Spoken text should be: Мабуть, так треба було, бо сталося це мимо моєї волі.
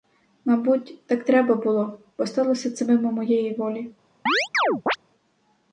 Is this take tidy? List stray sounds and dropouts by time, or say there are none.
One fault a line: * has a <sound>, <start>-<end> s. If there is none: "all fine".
* has a chirp, 4.3-5.0 s